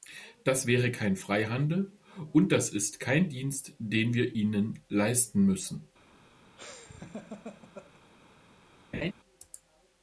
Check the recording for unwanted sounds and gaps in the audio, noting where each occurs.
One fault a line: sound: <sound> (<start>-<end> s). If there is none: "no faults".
sound: laugh (6.6-8.0 s)
sound: laugh (8.9-9.1 s)